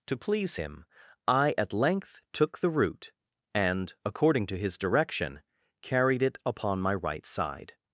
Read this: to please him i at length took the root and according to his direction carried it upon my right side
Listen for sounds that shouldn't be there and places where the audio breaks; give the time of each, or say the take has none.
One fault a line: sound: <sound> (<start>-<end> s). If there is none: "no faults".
no faults